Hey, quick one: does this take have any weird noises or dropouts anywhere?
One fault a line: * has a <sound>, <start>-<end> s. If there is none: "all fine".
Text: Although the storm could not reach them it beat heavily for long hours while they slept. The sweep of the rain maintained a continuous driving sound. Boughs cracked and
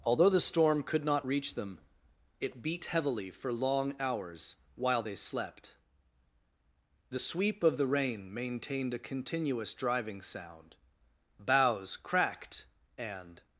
all fine